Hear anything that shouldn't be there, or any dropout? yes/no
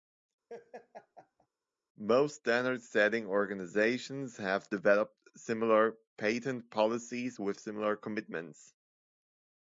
yes